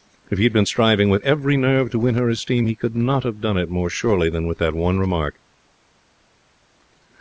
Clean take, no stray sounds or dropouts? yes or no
yes